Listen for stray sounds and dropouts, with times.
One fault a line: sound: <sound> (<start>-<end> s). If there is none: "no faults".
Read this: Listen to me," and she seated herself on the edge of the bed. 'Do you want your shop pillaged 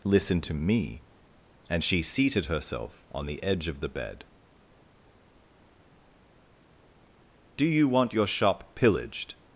no faults